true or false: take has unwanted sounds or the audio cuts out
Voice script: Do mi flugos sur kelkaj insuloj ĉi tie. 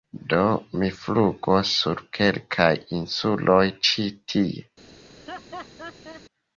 true